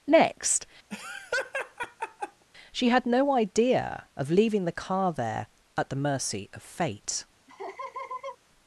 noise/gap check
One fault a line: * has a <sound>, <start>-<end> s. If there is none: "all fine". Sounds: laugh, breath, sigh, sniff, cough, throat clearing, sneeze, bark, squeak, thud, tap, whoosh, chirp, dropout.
* has a laugh, 0.9-2.4 s
* has a laugh, 7.5-8.4 s